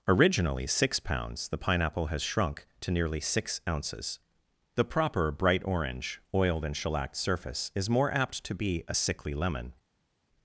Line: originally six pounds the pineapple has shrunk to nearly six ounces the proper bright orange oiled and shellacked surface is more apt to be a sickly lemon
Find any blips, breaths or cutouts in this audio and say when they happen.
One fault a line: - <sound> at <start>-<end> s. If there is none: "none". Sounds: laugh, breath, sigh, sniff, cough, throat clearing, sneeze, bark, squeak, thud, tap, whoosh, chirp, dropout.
none